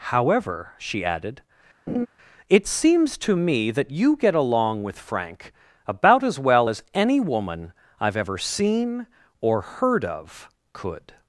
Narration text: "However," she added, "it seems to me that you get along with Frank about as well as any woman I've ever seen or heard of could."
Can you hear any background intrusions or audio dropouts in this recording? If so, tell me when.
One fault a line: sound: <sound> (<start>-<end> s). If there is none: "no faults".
sound: laugh (1.9-2.1 s)